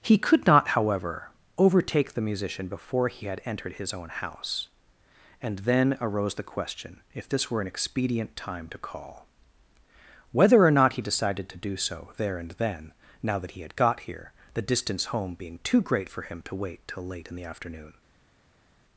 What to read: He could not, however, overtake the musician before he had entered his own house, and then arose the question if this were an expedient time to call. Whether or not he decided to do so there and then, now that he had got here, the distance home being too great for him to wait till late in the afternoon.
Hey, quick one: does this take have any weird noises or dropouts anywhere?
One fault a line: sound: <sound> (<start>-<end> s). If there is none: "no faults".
no faults